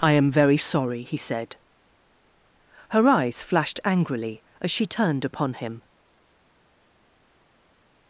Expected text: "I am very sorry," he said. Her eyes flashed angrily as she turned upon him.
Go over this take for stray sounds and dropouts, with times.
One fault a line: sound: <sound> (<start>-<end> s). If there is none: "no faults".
no faults